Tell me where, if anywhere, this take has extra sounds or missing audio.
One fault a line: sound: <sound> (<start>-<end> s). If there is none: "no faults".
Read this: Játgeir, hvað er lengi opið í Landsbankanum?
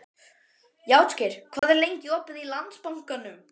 sound: dropout (1.6-1.6 s)